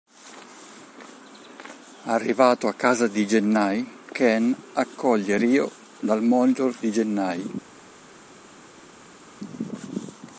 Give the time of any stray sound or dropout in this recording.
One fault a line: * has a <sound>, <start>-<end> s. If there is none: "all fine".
all fine